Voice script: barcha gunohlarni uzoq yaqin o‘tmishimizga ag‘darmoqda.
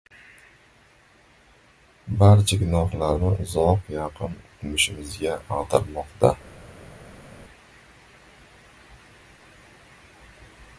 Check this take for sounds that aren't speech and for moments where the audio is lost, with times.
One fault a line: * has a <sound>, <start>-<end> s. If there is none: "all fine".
all fine